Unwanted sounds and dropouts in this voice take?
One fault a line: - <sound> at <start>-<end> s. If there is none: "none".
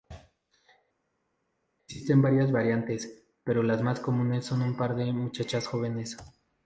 none